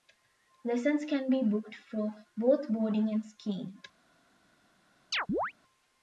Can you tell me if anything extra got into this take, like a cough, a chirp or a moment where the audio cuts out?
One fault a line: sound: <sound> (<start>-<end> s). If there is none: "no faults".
sound: chirp (5.1-5.5 s)